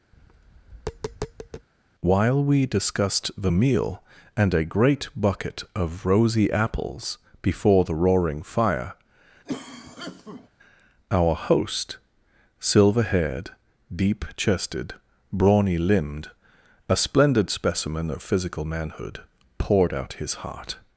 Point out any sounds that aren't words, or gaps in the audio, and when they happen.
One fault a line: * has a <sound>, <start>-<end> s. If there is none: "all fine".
* has a tap, 0.1-1.7 s
* has a cough, 9.5-10.5 s